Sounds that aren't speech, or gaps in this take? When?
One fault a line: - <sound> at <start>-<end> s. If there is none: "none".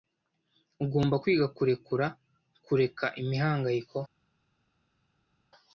none